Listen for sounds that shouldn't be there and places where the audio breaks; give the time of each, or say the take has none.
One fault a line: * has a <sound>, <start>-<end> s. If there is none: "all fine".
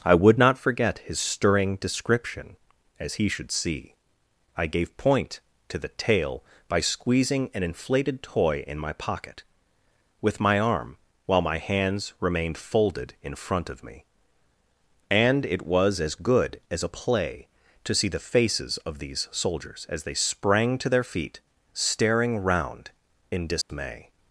* has a dropout, 23.6-23.7 s